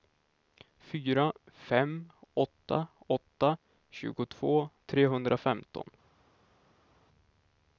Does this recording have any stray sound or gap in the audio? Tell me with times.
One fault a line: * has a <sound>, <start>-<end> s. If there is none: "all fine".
all fine